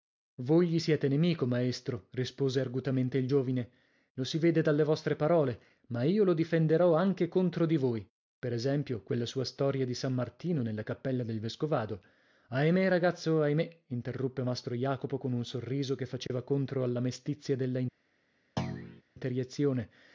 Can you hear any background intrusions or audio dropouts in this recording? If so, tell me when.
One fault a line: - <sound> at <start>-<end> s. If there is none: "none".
- dropout at 16.3-16.3 s
- thud at 18.6-19.0 s